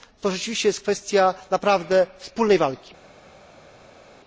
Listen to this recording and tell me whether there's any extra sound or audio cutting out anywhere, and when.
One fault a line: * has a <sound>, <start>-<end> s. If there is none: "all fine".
all fine